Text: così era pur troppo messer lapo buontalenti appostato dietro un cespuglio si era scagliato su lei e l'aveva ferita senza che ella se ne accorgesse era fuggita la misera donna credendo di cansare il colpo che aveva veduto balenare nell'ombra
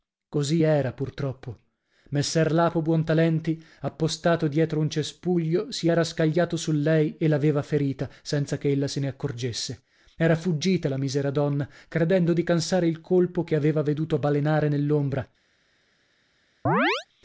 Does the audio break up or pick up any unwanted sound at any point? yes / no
yes